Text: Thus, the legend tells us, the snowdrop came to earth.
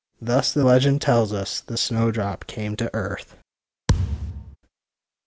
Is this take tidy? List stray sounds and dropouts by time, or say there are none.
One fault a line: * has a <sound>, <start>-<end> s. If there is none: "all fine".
* has a thud, 3.9-4.6 s